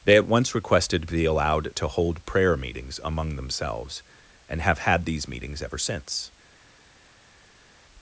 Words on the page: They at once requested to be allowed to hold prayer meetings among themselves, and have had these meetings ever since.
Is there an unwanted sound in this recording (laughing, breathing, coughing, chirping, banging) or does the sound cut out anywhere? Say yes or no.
no